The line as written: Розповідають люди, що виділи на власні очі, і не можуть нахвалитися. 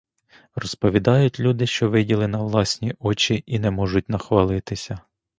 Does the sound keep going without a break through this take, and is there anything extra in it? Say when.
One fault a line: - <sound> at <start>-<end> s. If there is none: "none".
none